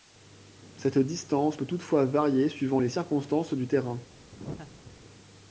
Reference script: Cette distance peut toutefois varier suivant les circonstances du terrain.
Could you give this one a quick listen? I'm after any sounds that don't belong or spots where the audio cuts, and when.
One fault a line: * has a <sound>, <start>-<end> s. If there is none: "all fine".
* has a laugh, 4.3-5.0 s